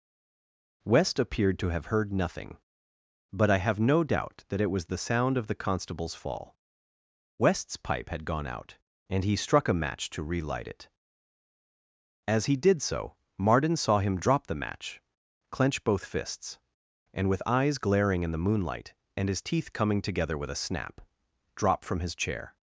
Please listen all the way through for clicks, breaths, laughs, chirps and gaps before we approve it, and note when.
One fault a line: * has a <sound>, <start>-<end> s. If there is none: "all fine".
all fine